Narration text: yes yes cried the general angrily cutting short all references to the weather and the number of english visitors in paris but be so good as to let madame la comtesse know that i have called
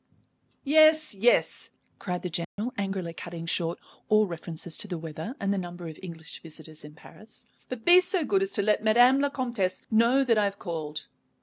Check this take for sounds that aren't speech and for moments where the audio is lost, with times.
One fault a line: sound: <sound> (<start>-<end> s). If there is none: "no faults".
sound: dropout (2.4-2.6 s)